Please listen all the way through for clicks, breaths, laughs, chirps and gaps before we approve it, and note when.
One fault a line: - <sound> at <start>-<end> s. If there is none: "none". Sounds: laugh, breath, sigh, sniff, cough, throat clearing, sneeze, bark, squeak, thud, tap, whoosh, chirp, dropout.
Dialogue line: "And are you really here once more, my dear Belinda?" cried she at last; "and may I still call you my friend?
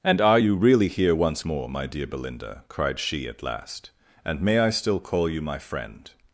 none